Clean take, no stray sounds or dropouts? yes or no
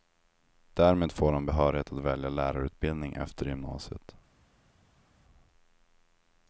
yes